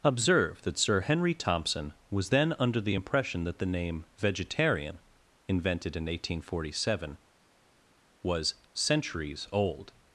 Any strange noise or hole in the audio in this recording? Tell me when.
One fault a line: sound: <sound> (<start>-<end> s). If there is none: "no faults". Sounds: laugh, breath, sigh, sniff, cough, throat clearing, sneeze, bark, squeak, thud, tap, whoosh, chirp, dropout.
no faults